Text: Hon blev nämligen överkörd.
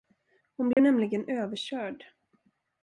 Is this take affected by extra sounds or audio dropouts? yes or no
yes